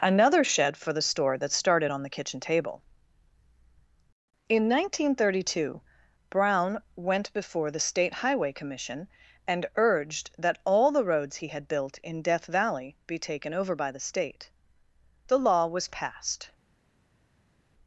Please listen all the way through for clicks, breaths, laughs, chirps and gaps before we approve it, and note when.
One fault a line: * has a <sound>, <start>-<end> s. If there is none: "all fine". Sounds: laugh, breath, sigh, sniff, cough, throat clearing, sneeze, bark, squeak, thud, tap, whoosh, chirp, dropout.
all fine